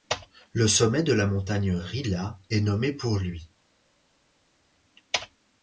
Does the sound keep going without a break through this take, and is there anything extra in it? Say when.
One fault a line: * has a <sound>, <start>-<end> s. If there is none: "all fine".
all fine